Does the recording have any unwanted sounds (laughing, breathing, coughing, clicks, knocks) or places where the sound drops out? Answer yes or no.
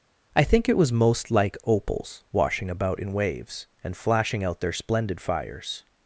no